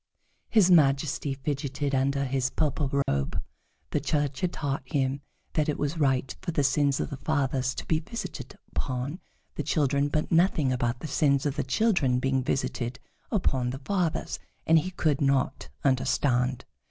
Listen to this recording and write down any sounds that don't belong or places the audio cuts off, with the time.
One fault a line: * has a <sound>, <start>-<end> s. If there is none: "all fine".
* has a dropout, 3.0-3.1 s